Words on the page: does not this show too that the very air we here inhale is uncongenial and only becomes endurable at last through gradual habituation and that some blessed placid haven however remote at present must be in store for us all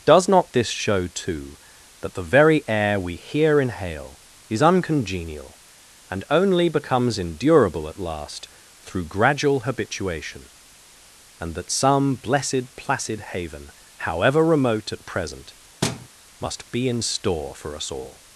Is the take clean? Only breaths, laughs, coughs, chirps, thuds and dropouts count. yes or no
no